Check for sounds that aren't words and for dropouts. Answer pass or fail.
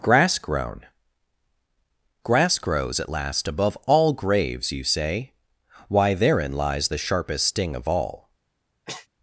fail